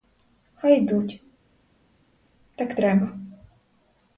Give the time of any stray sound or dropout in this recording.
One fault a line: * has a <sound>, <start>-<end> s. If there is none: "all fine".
all fine